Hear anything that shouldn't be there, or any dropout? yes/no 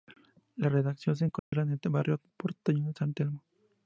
yes